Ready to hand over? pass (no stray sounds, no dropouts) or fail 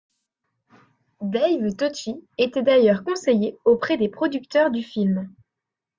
pass